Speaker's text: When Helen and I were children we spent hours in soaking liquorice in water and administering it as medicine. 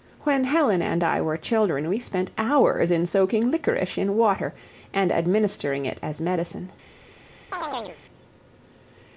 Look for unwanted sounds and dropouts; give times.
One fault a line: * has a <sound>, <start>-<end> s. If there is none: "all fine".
* has a chirp, 7.5-8.0 s